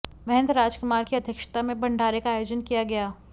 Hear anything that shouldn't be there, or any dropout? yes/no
no